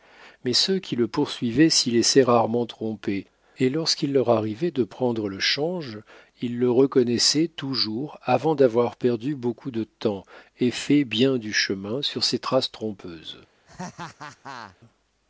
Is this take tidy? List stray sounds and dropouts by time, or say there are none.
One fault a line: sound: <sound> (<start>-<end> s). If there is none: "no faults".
sound: laugh (13.7-14.8 s)